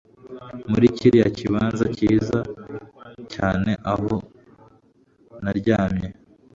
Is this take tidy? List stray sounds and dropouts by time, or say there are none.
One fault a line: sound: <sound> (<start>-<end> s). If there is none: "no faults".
no faults